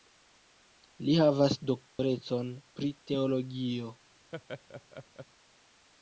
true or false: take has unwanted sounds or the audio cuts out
true